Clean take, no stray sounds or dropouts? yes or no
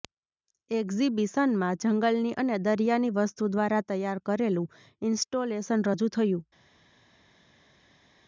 yes